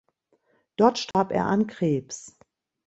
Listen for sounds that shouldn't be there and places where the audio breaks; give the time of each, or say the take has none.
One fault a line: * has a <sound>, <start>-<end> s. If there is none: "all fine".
* has a dropout, 1.1-1.1 s